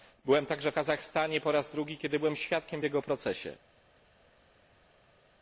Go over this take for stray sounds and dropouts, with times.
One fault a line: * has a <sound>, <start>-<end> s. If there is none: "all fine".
all fine